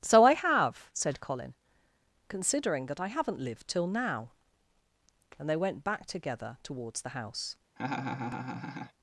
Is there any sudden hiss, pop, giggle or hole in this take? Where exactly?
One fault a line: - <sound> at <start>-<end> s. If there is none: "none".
- laugh at 7.8-8.9 s